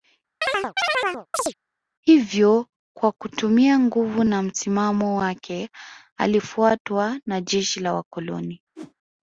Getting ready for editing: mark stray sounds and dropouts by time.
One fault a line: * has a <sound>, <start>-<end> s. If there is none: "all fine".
* has a chirp, 0.4-1.5 s
* has a whoosh, 8.8-8.9 s